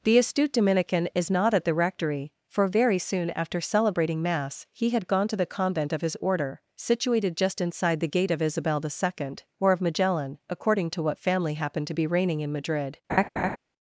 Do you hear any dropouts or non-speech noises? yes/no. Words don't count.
yes